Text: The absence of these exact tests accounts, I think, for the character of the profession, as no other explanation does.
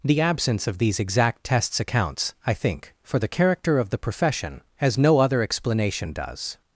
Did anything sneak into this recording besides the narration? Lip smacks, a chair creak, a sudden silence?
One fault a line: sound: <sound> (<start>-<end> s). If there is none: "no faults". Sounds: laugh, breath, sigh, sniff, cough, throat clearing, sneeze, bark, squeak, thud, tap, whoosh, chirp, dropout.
no faults